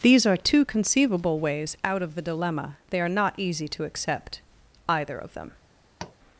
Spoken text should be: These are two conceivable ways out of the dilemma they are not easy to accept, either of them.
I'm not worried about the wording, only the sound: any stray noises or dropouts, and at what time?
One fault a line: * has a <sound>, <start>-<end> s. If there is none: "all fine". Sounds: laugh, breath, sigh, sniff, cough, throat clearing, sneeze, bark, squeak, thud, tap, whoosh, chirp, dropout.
* has a tap, 6.0-6.2 s